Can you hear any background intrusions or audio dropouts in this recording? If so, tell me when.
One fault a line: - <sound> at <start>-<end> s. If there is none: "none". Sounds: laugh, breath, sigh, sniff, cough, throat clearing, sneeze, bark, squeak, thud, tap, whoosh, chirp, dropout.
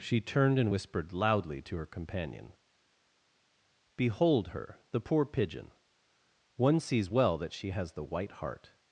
none